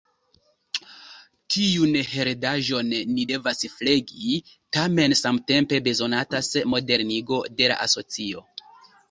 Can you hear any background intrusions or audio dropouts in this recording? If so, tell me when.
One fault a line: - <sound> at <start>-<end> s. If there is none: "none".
none